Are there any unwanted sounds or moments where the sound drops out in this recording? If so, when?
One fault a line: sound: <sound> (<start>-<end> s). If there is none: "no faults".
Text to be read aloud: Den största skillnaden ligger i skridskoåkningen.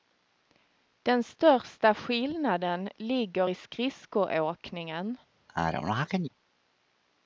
sound: sneeze (5.5-6.3 s)